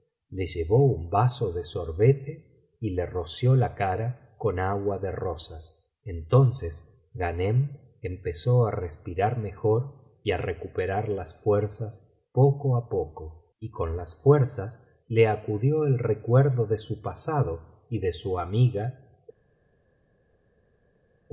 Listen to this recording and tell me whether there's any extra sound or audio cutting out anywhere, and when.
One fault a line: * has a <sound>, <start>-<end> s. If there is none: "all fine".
all fine